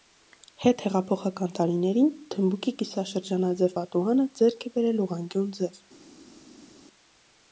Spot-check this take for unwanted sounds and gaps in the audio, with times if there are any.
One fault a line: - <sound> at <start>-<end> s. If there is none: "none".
none